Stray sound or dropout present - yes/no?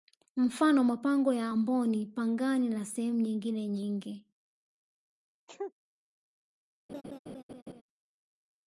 yes